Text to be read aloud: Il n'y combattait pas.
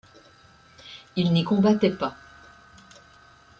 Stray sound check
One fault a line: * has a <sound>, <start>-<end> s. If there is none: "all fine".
all fine